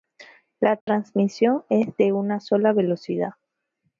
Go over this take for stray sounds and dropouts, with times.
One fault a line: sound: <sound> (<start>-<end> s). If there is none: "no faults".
sound: dropout (0.8-0.9 s)